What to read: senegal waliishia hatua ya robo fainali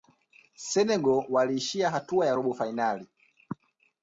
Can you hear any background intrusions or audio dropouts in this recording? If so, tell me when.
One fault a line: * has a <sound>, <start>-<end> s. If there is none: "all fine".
all fine